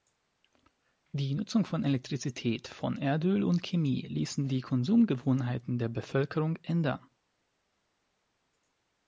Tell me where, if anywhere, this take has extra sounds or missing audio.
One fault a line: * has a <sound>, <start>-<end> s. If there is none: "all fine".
all fine